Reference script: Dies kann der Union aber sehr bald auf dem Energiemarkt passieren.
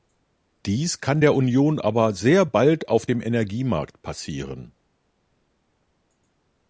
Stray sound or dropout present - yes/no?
no